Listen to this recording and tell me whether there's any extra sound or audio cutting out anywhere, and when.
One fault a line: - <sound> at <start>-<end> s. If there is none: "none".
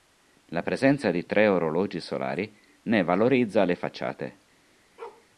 - bark at 5.0-5.3 s